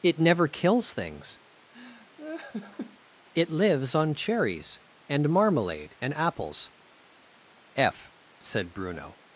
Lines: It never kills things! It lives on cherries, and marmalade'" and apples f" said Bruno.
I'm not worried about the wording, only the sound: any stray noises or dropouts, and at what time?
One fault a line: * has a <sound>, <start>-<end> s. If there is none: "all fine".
* has a laugh, 1.7-3.0 s